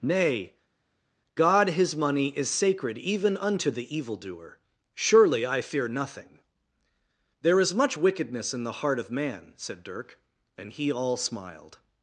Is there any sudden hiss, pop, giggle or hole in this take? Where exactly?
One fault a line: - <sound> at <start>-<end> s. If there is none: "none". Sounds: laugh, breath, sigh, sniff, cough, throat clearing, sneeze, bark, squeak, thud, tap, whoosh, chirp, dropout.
none